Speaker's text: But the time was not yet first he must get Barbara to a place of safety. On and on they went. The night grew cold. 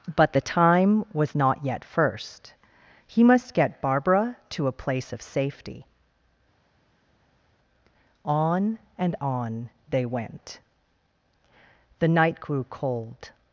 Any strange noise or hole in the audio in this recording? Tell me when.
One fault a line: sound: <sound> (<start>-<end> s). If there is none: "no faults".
no faults